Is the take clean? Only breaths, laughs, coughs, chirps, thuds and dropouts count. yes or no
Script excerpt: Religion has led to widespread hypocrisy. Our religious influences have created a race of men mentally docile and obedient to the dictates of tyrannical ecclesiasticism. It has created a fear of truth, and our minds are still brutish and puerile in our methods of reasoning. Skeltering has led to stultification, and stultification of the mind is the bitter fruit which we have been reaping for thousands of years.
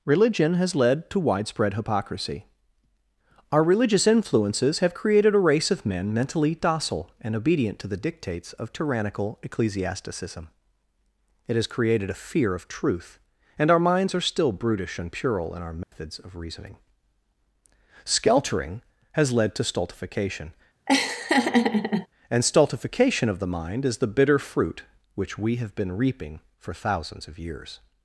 no